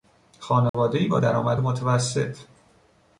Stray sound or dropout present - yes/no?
yes